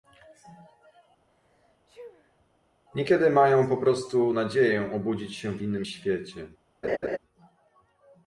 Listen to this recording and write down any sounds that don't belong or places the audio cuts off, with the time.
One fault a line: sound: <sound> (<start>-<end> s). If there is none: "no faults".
sound: sneeze (1.3-2.5 s)
sound: laugh (6.8-7.2 s)